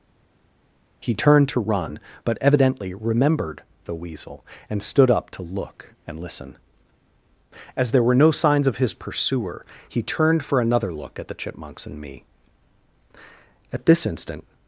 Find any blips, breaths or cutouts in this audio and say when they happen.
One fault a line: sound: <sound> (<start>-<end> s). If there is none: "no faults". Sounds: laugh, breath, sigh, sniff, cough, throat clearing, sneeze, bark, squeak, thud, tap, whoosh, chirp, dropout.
no faults